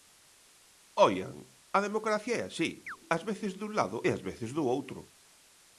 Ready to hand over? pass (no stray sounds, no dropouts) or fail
fail